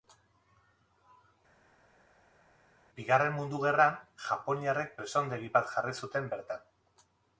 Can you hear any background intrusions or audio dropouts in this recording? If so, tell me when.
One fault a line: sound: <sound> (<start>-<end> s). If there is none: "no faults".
no faults